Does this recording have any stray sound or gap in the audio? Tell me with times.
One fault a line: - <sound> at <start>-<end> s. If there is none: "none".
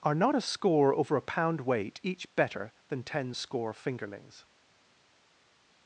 none